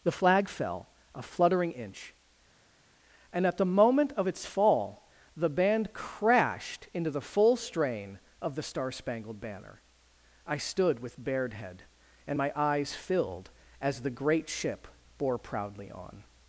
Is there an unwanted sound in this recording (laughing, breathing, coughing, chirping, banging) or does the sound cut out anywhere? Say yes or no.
no